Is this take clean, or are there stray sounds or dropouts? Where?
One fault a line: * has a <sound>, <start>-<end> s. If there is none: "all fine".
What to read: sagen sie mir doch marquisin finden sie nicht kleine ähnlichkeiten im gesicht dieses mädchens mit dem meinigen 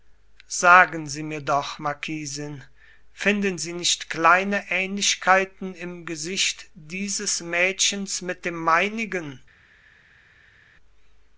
all fine